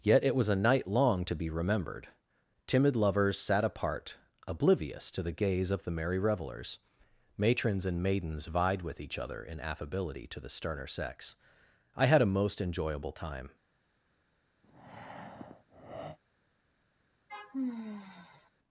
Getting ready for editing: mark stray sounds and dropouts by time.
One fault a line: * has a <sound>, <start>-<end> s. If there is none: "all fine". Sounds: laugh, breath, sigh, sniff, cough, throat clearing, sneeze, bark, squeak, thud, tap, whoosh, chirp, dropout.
* has a breath, 14.6-16.2 s
* has a sigh, 17.3-18.5 s